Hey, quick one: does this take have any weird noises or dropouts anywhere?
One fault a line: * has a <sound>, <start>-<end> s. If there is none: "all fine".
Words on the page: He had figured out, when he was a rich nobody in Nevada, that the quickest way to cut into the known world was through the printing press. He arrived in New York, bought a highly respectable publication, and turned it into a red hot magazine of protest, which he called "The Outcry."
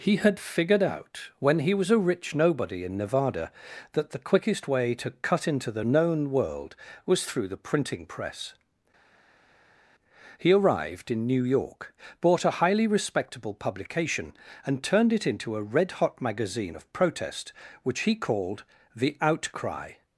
all fine